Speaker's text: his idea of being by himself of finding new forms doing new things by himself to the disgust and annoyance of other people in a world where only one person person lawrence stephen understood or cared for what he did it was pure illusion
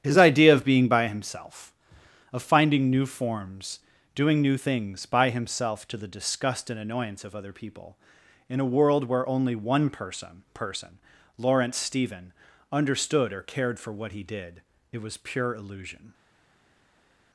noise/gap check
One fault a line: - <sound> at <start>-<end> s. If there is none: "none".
none